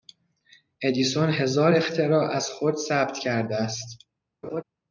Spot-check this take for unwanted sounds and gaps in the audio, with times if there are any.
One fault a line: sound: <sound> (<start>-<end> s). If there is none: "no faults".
sound: laugh (4.4-4.6 s)